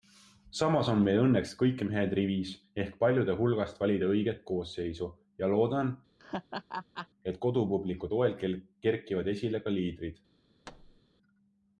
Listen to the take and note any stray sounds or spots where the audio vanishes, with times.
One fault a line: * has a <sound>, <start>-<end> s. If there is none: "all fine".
* has a laugh, 6.2-7.1 s
* has a thud, 10.6-11.0 s